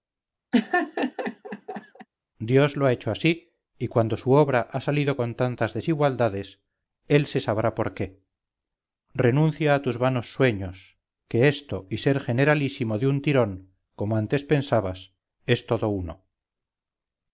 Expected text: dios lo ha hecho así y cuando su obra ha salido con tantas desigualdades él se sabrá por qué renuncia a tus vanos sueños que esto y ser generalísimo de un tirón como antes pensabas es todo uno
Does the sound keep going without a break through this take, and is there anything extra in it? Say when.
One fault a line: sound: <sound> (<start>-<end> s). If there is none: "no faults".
sound: laugh (0.5-2.1 s)